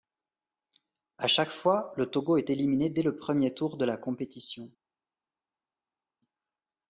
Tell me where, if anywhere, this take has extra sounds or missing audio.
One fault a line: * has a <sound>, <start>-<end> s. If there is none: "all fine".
all fine